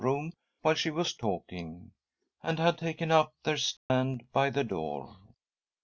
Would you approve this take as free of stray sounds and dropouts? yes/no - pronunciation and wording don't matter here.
no